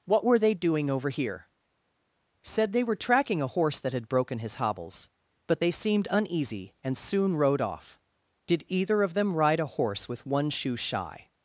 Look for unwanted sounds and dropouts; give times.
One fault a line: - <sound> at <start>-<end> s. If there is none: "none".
none